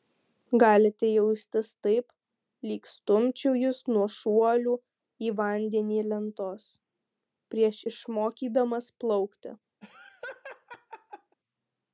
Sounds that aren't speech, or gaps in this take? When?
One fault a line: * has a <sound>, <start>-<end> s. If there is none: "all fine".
* has a laugh, 9.8-11.4 s